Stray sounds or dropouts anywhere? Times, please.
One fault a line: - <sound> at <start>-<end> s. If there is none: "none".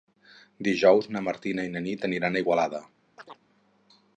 - chirp at 3.2-3.4 s